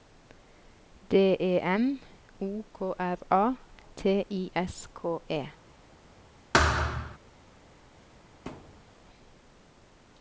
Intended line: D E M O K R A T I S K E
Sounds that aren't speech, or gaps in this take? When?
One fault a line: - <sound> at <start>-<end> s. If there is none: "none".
- thud at 6.5-7.2 s
- thud at 8.5-8.9 s